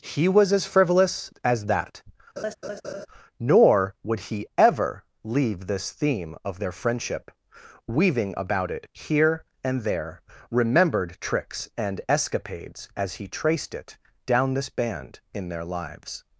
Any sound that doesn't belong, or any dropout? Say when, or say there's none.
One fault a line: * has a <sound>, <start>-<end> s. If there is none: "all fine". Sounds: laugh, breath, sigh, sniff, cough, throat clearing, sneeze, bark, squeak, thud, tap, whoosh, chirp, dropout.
* has a laugh, 2.4-3.1 s